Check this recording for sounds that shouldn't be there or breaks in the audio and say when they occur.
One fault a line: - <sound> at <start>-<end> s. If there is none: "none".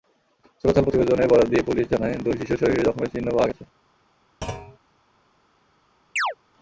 - thud at 4.4-4.8 s
- chirp at 6.2-6.3 s